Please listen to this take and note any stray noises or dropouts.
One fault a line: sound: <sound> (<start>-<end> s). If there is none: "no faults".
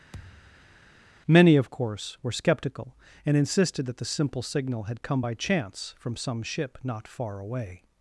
sound: thud (0.1-0.8 s)